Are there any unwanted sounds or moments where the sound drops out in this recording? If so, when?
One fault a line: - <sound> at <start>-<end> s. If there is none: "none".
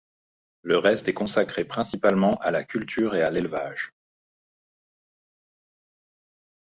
none